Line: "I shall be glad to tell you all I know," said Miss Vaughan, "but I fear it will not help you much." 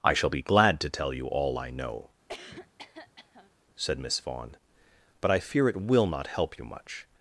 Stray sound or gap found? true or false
true